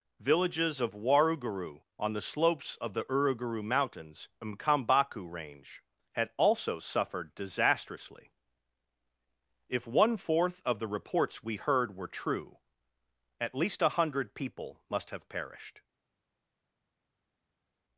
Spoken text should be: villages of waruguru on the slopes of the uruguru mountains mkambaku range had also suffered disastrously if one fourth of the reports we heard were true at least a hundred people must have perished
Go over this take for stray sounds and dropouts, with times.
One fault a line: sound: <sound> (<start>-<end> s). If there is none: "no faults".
no faults